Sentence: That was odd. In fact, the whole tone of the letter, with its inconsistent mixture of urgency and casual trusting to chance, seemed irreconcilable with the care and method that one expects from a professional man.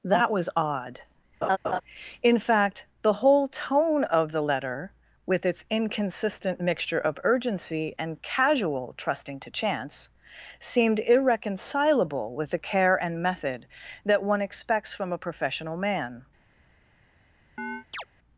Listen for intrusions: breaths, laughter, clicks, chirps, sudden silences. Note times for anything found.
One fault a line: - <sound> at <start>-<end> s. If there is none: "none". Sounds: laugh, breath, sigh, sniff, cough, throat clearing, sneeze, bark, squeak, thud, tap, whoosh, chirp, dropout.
- laugh at 1.4-1.8 s
- chirp at 17.6-18.1 s